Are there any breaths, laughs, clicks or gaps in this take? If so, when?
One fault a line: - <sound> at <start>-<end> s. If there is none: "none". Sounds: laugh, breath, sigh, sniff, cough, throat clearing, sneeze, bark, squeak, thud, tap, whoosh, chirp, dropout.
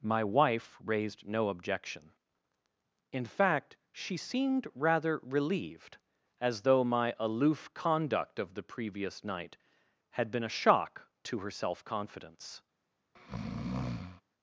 - breath at 13.2-14.2 s